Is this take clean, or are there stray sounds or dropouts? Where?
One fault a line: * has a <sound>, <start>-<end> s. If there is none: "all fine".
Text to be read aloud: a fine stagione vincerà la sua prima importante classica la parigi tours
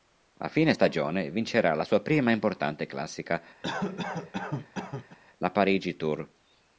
* has a cough, 3.6-5.2 s